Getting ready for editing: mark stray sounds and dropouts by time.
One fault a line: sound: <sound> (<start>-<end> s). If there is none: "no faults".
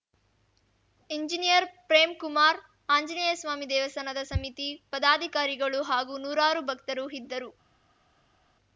no faults